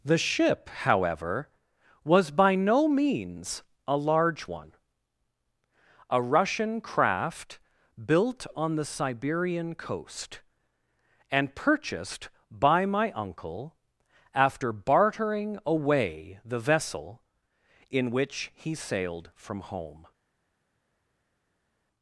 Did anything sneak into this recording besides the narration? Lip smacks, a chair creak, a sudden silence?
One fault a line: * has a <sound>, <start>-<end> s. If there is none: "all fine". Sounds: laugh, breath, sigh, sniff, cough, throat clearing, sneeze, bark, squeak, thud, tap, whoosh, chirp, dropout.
all fine